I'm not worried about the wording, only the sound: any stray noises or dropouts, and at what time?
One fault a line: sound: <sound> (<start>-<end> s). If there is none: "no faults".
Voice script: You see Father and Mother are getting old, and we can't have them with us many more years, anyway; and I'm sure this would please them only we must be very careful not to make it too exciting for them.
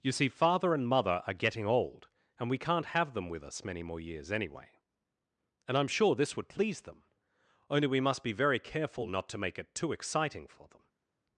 no faults